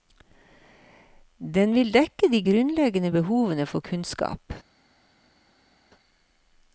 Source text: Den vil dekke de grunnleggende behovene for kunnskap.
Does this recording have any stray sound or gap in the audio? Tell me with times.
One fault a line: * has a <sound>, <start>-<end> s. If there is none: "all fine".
all fine